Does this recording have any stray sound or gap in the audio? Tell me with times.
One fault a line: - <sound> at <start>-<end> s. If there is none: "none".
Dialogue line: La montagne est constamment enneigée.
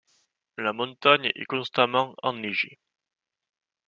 none